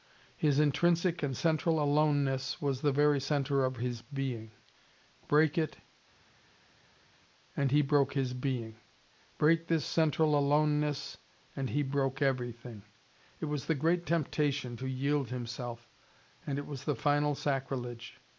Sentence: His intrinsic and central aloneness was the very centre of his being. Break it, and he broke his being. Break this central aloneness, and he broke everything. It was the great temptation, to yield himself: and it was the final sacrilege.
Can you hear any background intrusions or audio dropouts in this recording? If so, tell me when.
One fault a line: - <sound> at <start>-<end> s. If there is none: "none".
none